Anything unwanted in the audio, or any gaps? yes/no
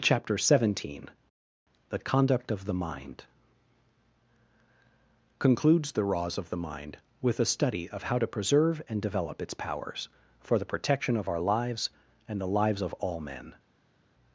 no